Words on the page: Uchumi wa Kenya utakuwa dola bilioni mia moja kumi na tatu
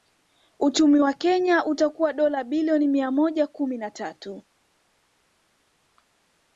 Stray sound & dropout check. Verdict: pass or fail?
pass